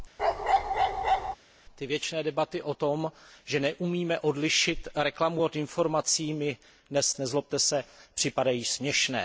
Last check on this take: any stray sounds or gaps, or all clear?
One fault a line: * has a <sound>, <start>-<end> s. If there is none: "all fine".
* has a bark, 0.2-1.4 s